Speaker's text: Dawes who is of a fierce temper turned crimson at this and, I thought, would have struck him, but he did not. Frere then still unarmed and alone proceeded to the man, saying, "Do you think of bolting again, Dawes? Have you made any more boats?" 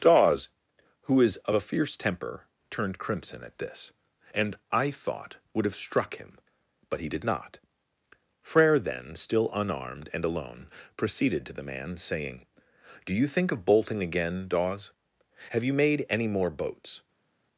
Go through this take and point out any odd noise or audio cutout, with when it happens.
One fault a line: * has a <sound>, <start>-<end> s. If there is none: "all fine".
all fine